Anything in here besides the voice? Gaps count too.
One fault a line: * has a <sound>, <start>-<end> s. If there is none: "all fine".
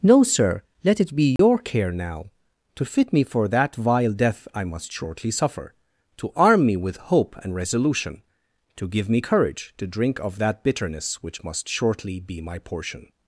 * has a dropout, 1.4-1.4 s